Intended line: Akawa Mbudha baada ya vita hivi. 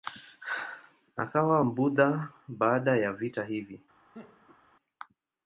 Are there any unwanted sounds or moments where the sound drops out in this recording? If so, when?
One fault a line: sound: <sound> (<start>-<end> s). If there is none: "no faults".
sound: laugh (4.1-4.6 s)